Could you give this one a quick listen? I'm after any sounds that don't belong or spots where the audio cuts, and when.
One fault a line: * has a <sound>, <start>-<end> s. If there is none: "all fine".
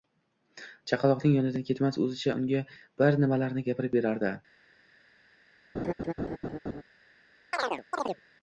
* has a laugh, 5.7-6.8 s
* has a chirp, 7.5-8.2 s